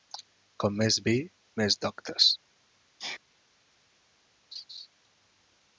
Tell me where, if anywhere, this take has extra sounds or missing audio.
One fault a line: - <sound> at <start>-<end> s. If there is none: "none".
- sneeze at 3.0-3.2 s
- laugh at 4.5-4.9 s